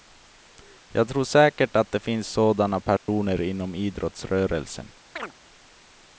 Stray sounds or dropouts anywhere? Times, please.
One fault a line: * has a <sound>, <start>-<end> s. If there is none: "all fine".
* has a dropout, 3.0-3.1 s
* has a chirp, 5.2-5.3 s